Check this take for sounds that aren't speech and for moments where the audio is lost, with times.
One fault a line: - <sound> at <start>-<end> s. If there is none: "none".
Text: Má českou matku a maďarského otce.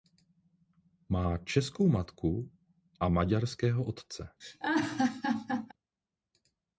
- laugh at 4.4-5.7 s